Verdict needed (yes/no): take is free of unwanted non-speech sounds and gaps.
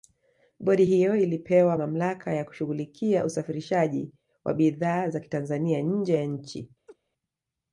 no